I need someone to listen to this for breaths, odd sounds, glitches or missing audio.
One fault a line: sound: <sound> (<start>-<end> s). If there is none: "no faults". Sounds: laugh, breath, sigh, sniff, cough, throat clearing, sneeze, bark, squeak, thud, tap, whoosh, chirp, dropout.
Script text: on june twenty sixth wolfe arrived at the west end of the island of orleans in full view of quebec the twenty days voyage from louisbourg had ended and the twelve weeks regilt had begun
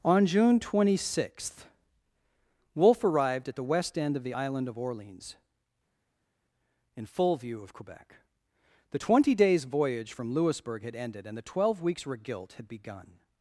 no faults